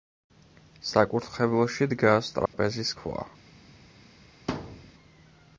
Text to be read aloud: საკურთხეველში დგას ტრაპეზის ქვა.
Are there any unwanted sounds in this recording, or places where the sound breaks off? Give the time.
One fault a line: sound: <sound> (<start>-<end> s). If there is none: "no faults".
sound: dropout (2.5-2.5 s)
sound: thud (4.5-4.9 s)